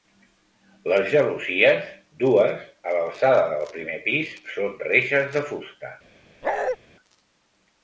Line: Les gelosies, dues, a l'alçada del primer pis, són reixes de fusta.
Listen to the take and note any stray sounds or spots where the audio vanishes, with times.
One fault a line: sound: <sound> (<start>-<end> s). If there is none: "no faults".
sound: bark (6.4-6.8 s)